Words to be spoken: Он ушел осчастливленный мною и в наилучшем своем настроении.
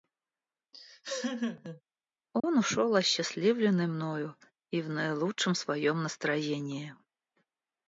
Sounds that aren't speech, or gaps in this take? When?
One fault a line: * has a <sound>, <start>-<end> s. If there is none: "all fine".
* has a laugh, 0.7-1.8 s
* has a dropout, 2.4-2.4 s